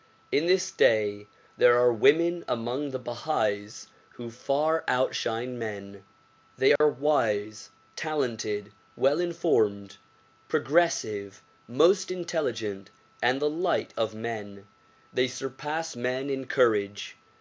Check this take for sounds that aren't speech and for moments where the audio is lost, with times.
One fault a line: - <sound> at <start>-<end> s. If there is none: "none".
- dropout at 6.8-6.8 s